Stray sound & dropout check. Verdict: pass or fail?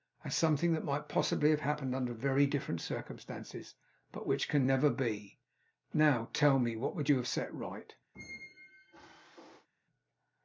fail